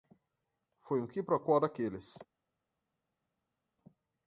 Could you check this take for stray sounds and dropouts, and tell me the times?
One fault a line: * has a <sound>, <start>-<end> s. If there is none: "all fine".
all fine